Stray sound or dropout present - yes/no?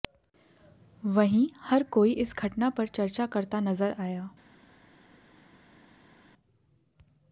no